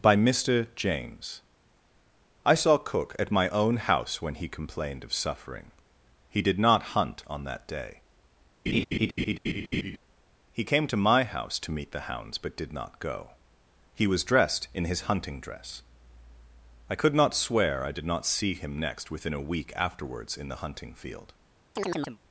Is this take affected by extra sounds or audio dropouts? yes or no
yes